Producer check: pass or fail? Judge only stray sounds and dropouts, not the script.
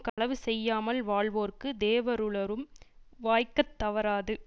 fail